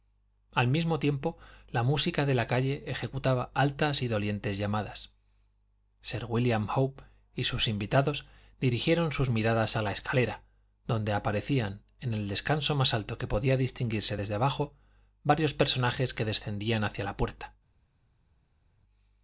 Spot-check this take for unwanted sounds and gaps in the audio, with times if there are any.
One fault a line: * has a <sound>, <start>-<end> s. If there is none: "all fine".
all fine